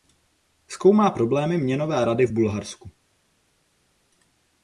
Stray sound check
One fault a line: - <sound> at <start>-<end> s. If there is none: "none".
none